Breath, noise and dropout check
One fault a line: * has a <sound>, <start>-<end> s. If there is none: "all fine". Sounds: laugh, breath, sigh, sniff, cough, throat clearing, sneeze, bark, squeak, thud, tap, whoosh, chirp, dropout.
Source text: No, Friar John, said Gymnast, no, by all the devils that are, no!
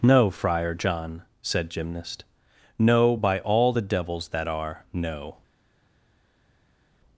all fine